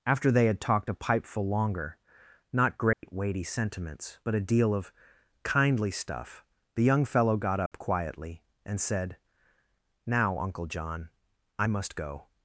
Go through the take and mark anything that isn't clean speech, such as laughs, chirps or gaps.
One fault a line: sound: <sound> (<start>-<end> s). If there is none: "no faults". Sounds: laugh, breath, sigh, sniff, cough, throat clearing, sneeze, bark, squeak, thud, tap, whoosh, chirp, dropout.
sound: dropout (2.9-3.0 s)
sound: dropout (7.7-7.7 s)